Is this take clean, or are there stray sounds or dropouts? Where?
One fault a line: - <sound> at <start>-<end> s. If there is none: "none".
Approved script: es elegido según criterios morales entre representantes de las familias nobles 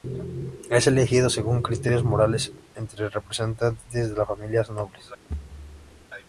- thud at 5.3-6.1 s